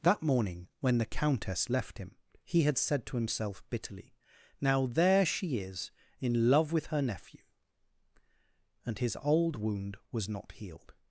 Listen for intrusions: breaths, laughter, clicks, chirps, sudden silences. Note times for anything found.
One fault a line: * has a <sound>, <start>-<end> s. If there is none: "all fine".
all fine